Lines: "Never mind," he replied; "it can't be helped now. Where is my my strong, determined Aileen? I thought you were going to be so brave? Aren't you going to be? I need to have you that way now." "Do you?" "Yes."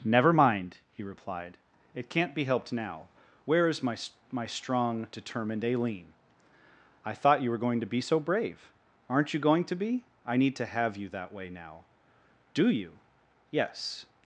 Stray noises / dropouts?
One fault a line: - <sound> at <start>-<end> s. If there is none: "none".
none